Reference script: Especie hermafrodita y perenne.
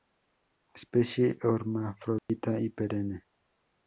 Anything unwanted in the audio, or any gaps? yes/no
yes